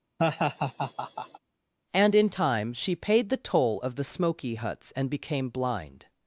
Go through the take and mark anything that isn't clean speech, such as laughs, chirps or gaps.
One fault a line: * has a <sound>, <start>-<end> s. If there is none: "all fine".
* has a laugh, 0.2-1.4 s